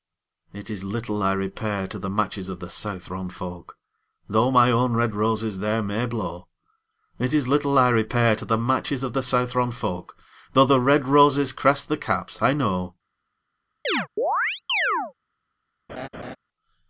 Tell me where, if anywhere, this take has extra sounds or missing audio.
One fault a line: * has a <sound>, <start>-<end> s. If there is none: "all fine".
* has a chirp, 13.8-15.1 s
* has a laugh, 15.9-16.4 s